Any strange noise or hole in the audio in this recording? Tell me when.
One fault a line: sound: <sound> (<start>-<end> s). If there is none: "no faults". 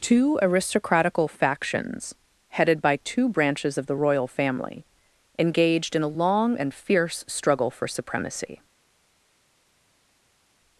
no faults